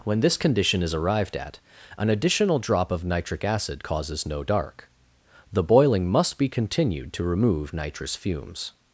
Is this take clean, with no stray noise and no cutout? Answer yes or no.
yes